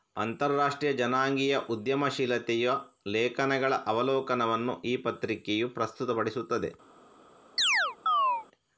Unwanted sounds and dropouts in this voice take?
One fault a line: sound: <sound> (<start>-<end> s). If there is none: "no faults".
sound: chirp (7.6-8.5 s)